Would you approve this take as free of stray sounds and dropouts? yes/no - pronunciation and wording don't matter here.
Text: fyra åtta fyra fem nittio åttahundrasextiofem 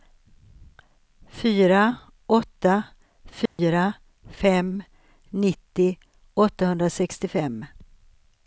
no